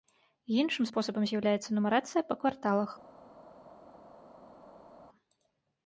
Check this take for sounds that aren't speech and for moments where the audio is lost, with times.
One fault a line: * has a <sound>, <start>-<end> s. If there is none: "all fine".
all fine